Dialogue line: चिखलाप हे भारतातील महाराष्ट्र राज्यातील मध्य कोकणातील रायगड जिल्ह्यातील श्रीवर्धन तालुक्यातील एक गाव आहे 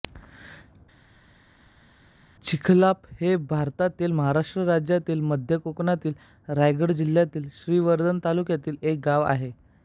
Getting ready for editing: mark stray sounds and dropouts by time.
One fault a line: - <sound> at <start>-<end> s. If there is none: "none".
none